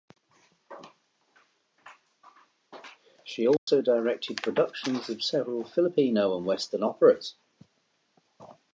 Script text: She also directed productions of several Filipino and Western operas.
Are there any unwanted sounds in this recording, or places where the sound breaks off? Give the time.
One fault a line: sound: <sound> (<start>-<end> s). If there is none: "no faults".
sound: dropout (3.6-3.7 s)